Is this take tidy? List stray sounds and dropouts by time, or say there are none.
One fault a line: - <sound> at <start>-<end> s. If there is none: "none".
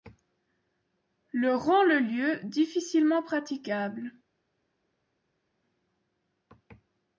none